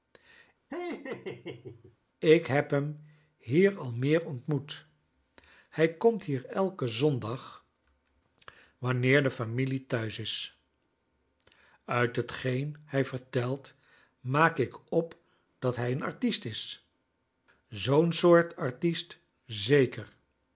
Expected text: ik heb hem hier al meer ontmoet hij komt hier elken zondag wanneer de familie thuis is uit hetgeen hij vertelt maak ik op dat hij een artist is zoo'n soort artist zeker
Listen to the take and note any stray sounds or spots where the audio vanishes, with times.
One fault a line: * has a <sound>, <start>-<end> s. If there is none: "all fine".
* has a laugh, 0.7-2.0 s